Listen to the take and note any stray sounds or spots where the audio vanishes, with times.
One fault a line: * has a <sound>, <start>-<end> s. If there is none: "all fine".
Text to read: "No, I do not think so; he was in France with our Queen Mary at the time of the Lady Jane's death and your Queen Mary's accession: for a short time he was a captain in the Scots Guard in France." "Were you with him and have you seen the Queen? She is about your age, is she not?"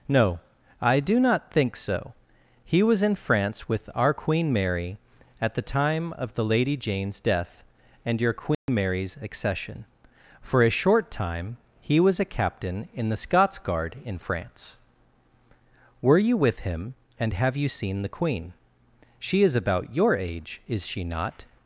* has a dropout, 8.5-8.7 s